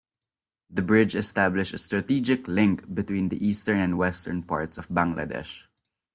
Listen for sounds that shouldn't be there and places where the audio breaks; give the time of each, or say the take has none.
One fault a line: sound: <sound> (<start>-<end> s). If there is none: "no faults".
no faults